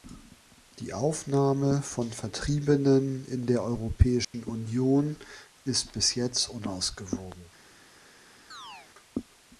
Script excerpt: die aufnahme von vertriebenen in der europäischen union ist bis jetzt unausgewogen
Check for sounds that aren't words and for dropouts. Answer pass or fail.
fail